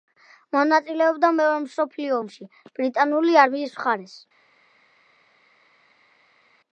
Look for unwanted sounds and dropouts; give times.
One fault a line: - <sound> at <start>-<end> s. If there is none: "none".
none